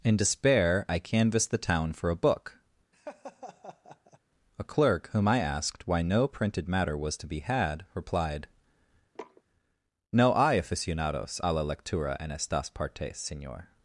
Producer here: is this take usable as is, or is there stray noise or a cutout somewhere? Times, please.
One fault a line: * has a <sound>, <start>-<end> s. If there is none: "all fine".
* has a laugh, 2.9-4.2 s
* has a sniff, 9.2-9.4 s